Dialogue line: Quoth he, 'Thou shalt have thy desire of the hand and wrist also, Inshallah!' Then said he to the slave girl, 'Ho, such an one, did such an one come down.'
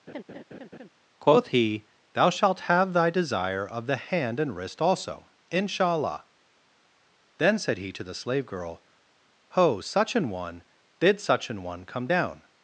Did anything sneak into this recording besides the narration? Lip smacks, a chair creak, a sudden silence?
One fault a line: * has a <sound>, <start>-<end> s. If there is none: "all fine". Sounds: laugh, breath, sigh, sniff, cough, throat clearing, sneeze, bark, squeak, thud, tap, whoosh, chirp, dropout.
* has a laugh, 0.1-0.9 s